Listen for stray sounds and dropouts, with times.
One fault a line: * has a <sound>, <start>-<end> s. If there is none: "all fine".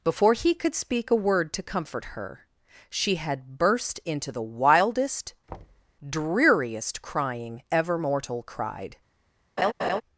* has a thud, 5.5-5.9 s
* has a laugh, 9.6-10.0 s